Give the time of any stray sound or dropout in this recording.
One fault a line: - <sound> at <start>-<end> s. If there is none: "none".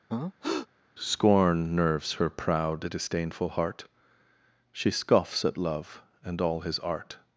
- breath at 0.1-0.7 s